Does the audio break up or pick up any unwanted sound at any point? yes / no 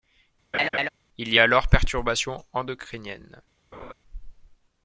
yes